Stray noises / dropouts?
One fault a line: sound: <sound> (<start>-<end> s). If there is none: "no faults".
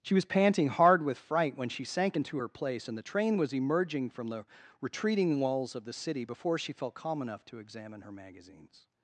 no faults